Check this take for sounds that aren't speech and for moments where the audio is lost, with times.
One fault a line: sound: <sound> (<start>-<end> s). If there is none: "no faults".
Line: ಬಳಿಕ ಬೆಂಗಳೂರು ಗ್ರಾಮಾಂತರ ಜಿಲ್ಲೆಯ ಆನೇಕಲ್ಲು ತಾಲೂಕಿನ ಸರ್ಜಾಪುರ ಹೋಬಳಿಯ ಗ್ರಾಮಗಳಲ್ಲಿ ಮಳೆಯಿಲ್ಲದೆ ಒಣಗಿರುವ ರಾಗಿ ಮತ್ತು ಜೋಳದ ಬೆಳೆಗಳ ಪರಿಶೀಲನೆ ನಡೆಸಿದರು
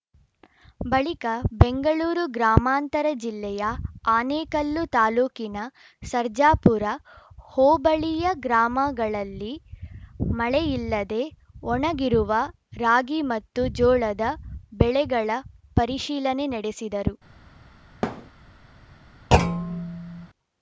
sound: thud (18.0-18.3 s)
sound: thud (19.3-20.3 s)